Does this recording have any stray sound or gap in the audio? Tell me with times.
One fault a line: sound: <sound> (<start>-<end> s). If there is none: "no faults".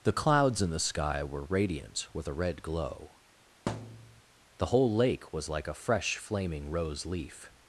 sound: thud (3.7-4.2 s)